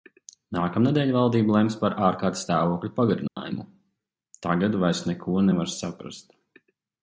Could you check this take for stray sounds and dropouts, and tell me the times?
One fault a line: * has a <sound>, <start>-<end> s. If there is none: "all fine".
* has a dropout, 3.3-3.4 s